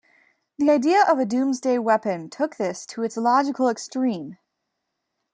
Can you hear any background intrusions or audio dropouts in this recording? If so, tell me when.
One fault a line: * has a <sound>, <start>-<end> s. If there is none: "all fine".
all fine